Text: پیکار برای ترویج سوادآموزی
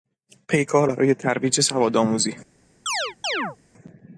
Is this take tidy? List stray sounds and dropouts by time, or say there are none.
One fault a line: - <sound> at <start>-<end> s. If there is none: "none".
- chirp at 2.9-3.6 s